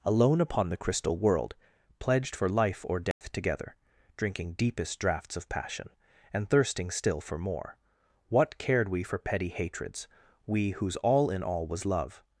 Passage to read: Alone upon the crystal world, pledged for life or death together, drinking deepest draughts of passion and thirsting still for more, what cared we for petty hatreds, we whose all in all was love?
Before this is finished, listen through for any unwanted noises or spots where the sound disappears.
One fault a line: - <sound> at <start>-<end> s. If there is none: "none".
- dropout at 3.1-3.2 s